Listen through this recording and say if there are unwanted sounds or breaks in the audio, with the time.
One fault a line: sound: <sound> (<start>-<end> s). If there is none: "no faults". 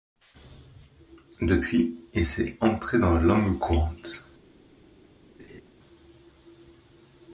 sound: laugh (5.4-5.6 s)